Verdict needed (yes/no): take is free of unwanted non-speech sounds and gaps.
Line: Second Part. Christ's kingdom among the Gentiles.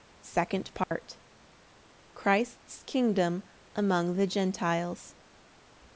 no